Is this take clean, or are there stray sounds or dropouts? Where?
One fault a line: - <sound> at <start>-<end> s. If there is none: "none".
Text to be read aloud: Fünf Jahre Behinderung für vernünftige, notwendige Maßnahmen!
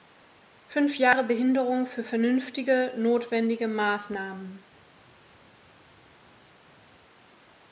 none